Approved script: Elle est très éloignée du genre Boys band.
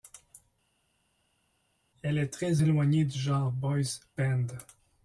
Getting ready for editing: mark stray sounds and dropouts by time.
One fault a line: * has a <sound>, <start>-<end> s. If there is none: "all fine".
all fine